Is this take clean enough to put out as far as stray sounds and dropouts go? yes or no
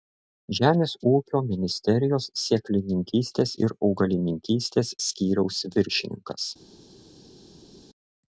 yes